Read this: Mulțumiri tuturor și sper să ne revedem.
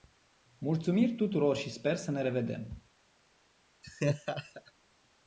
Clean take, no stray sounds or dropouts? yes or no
no